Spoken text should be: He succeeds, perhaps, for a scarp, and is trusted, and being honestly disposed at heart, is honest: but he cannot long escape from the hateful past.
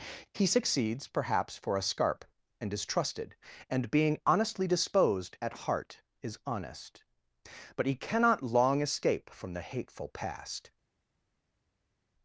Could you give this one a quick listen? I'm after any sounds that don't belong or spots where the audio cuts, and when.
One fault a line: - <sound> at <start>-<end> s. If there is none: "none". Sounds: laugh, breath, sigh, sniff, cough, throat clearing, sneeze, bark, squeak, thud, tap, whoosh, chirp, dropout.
none